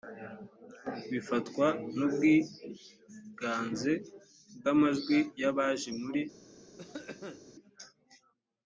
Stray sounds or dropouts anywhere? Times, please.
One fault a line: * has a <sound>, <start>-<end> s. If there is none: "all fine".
* has a cough, 6.8-7.4 s